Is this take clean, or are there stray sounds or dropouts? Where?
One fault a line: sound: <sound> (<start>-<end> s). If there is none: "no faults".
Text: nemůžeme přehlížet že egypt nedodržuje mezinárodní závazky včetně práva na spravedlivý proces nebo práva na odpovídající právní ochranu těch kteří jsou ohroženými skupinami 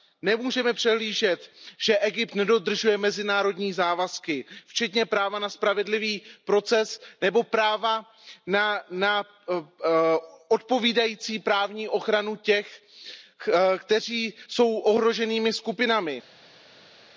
no faults